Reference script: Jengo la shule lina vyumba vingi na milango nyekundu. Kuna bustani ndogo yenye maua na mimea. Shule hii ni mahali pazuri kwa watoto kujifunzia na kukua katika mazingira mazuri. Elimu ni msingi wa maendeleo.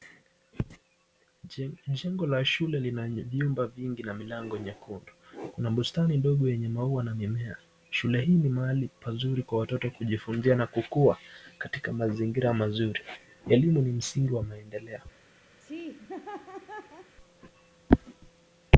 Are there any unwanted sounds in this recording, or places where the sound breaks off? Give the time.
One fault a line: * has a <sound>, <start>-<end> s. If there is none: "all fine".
* has a laugh, 15.6-17.2 s